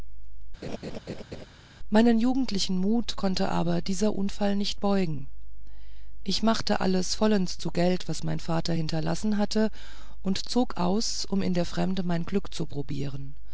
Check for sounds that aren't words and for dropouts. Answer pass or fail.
fail